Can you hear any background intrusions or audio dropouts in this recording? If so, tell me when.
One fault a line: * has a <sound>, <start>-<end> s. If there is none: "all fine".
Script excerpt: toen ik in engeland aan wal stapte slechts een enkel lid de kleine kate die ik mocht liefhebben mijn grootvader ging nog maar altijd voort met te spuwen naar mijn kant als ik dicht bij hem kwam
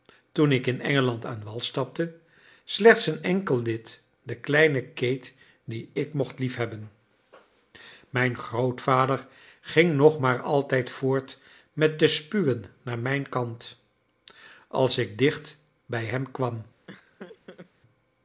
* has a laugh, 16.9-17.7 s